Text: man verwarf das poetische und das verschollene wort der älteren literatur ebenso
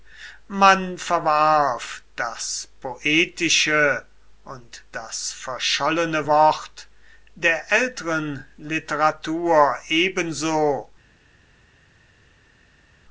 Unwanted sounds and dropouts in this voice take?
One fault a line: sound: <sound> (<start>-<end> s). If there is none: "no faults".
no faults